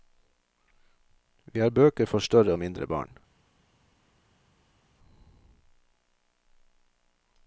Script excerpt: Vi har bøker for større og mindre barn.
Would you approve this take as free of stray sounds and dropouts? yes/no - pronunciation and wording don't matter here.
yes